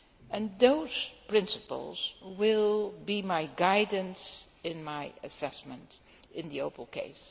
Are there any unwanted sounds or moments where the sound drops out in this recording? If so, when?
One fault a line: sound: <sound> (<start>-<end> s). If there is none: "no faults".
no faults